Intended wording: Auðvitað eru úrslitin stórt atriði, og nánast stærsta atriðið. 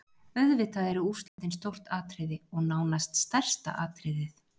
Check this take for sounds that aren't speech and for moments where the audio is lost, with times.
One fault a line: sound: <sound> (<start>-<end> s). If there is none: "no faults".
sound: dropout (1.3-1.4 s)